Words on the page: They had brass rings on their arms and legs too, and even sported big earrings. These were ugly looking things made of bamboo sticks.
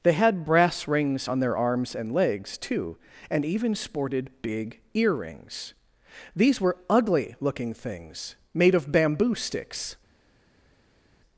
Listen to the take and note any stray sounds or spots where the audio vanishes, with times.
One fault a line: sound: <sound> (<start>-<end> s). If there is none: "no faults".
no faults